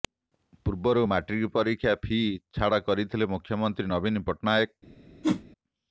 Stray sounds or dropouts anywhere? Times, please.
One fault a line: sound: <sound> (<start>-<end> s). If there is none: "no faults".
sound: whoosh (5.2-5.4 s)